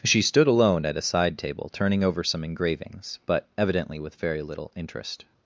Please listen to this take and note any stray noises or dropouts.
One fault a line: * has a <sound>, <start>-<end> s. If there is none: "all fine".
all fine